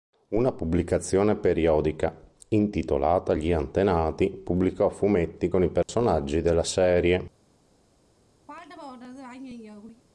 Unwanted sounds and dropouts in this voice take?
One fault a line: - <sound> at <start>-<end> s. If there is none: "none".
- dropout at 5.8-5.9 s
- throat clearing at 8.5-10.0 s